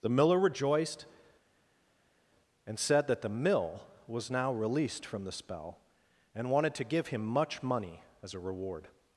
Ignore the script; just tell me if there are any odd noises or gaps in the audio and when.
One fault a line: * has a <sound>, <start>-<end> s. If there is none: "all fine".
all fine